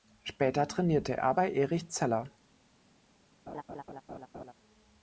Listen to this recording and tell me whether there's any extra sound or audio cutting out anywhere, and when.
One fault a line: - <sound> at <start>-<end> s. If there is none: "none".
- laugh at 3.5-4.5 s